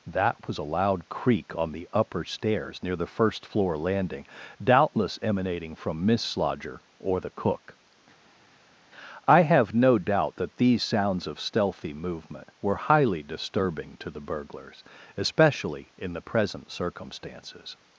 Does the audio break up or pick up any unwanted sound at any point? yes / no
no